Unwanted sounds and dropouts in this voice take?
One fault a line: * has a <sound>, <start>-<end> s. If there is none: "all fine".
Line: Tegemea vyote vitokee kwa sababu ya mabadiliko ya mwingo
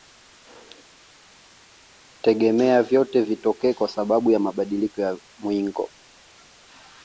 all fine